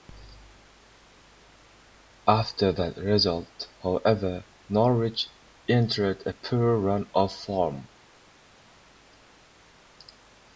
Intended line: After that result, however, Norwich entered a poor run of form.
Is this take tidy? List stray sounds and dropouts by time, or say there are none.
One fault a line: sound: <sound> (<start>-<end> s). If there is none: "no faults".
no faults